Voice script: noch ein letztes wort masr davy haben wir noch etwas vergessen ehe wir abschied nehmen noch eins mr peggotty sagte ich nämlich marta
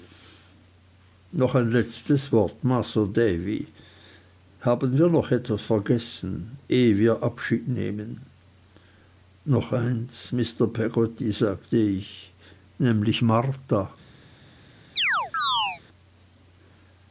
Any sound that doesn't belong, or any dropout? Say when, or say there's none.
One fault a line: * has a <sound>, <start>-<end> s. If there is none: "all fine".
* has a chirp, 15.0-15.8 s